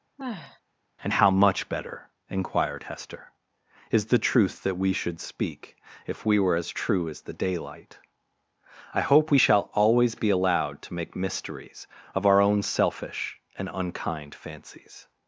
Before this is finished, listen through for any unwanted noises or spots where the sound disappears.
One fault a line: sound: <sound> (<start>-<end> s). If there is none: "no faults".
sound: sigh (0.2-0.6 s)